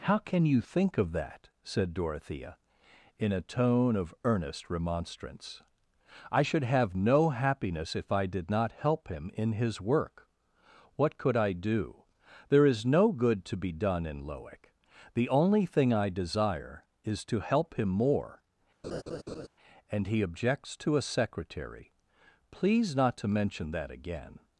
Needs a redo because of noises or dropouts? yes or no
yes